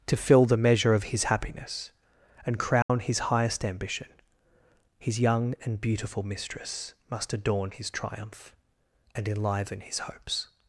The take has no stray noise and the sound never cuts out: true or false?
false